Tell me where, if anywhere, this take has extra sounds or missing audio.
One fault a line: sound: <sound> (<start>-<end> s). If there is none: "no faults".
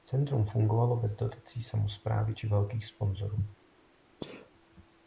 sound: sneeze (4.2-4.5 s)